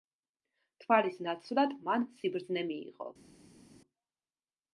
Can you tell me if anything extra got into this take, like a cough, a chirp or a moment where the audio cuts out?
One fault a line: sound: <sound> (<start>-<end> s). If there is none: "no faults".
no faults